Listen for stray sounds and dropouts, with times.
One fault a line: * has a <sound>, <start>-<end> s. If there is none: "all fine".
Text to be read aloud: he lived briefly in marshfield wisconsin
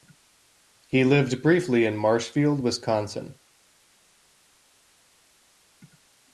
all fine